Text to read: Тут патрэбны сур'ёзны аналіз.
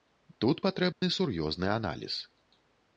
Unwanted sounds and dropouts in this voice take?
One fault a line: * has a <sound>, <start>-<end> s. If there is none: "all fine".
* has a dropout, 0.9-1.0 s